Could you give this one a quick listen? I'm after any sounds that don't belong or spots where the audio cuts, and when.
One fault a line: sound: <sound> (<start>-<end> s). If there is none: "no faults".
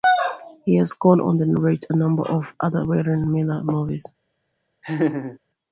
sound: laugh (4.8-5.4 s)